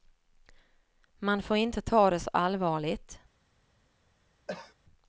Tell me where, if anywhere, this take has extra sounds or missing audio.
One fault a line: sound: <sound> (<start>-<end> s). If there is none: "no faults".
sound: cough (4.5-4.7 s)